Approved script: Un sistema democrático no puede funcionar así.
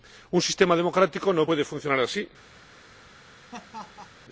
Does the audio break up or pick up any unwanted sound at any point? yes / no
yes